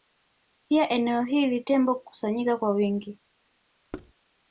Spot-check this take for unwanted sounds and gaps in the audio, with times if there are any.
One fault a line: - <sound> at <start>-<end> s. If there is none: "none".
- thud at 3.9-4.1 s